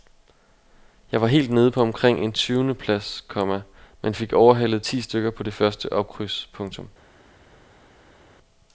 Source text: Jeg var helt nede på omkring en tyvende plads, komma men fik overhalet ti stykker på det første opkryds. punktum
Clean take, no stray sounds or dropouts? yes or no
yes